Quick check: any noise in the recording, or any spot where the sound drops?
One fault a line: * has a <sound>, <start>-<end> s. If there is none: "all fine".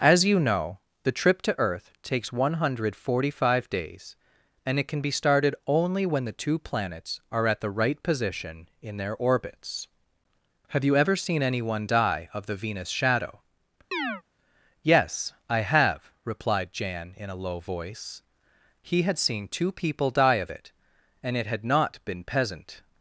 * has a chirp, 13.9-14.2 s